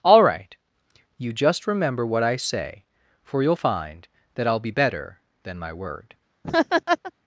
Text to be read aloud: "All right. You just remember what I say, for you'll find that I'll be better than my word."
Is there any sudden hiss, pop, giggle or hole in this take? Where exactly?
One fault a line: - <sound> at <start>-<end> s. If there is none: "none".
- laugh at 6.4-7.1 s